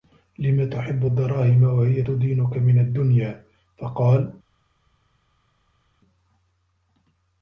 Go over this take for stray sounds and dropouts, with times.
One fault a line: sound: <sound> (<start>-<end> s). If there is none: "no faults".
no faults